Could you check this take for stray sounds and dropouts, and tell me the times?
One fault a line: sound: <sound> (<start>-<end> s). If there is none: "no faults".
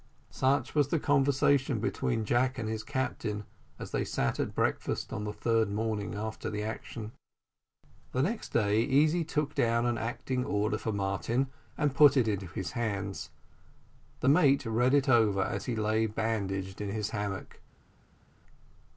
no faults